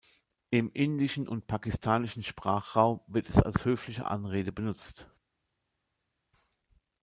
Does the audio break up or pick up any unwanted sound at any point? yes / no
no